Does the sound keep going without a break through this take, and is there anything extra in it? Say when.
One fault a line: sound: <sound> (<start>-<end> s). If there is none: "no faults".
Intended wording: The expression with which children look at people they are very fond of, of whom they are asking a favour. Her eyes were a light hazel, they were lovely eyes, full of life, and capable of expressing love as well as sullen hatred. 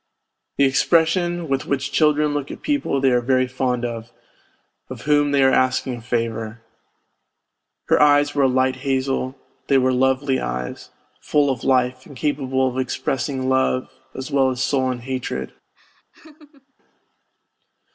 sound: laugh (15.7-16.7 s)